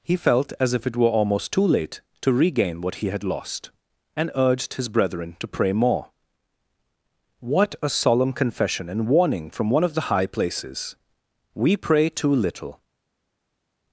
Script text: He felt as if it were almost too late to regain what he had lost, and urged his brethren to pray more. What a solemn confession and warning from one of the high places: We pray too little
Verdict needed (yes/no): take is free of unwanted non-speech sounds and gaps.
yes